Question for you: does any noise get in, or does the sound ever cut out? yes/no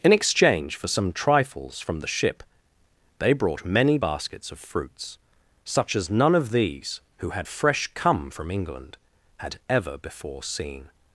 no